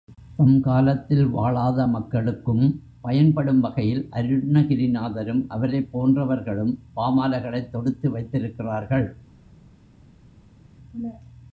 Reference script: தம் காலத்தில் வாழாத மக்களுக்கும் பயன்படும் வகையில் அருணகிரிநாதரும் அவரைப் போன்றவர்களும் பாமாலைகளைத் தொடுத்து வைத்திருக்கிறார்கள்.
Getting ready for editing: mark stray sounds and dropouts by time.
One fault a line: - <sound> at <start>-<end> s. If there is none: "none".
none